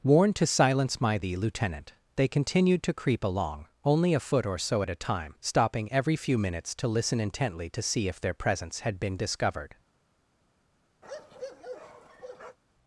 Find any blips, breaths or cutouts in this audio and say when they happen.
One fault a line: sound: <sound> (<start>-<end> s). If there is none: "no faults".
sound: bark (11.0-12.6 s)